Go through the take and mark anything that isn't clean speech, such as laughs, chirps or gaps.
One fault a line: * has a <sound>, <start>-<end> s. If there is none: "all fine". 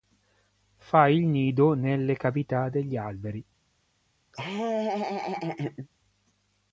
* has a laugh, 4.3-5.9 s